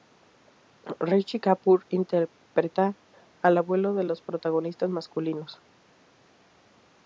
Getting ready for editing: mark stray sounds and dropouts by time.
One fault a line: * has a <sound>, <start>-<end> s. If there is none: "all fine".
all fine